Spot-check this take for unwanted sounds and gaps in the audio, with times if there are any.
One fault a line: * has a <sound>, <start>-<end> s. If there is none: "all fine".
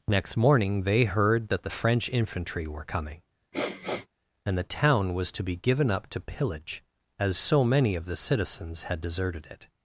* has a sniff, 3.5-4.1 s